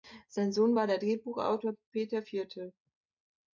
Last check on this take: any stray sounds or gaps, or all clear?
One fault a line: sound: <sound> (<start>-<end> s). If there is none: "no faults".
no faults